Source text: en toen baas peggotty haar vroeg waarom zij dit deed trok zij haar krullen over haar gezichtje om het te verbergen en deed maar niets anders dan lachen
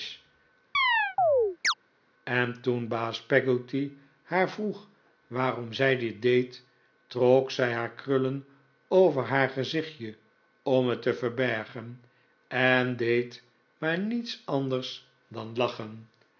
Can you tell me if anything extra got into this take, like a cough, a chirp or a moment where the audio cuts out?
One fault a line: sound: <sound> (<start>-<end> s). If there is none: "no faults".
sound: chirp (0.7-1.7 s)